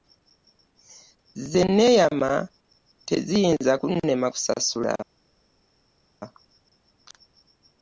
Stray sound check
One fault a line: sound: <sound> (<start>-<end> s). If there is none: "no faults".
no faults